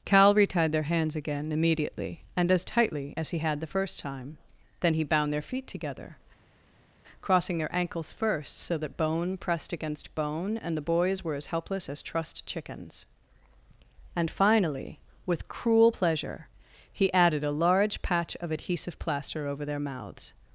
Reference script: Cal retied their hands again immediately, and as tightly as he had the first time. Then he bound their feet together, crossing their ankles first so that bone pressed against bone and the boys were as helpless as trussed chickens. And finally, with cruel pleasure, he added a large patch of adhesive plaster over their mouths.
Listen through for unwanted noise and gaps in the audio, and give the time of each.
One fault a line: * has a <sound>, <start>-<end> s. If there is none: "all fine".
all fine